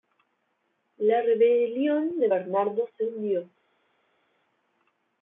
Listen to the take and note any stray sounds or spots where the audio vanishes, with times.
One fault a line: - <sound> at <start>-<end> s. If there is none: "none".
none